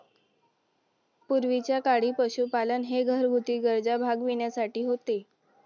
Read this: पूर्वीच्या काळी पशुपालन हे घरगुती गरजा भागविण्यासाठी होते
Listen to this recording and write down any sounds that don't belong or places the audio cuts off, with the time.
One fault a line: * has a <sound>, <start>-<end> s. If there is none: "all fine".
all fine